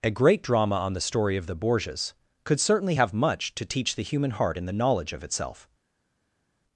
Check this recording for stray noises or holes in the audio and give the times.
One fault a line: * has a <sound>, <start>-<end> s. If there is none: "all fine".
all fine